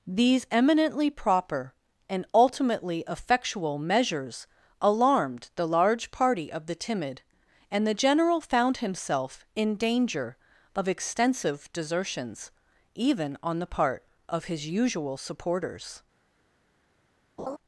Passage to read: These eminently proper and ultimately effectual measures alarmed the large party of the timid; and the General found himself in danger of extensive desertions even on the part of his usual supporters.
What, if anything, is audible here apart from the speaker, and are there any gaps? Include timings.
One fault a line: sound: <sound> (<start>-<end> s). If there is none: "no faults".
sound: laugh (17.4-17.6 s)